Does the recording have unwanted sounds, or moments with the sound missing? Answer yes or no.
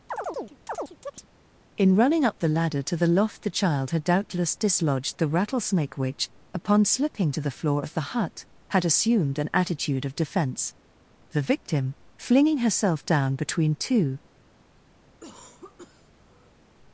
yes